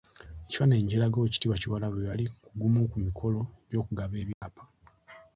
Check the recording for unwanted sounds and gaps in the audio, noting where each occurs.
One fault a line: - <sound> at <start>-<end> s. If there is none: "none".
- dropout at 4.3-4.4 s